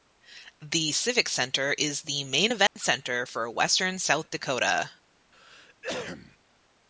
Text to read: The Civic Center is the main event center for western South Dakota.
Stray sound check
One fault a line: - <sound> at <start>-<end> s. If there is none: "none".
- dropout at 2.7-2.8 s
- cough at 5.3-6.4 s